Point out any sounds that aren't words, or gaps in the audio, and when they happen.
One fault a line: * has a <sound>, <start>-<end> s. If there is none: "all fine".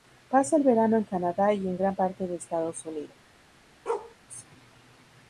* has a bark, 3.9-4.2 s